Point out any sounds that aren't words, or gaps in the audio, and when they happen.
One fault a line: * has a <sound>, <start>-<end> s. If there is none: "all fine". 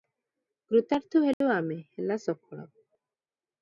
* has a dropout, 1.3-1.4 s